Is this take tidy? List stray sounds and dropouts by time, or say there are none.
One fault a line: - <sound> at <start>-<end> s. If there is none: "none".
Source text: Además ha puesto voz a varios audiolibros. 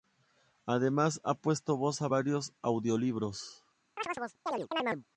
- chirp at 4.0-5.0 s